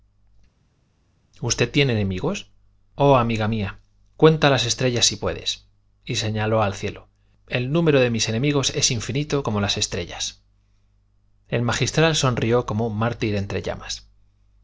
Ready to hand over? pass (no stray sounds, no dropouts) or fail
pass